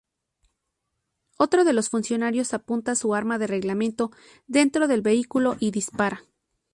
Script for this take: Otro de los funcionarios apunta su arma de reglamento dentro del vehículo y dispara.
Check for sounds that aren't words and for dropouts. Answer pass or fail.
pass